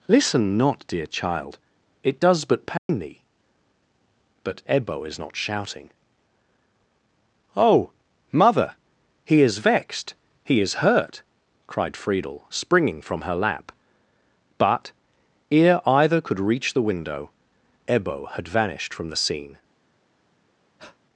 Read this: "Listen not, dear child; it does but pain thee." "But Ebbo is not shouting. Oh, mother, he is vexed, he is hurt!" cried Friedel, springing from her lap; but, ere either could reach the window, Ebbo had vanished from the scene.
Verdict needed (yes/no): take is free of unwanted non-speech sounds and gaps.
no